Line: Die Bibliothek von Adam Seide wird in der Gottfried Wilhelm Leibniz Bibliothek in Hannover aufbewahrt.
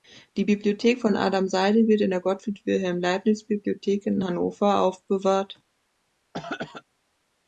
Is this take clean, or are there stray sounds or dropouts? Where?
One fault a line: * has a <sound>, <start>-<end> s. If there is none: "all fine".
* has a throat clearing, 6.3-6.8 s